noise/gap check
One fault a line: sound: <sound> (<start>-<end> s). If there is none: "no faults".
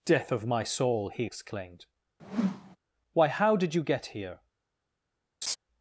sound: whoosh (2.2-2.8 s)
sound: laugh (5.4-5.6 s)